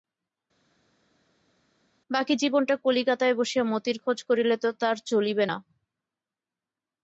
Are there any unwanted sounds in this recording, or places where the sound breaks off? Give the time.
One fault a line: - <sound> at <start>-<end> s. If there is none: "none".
none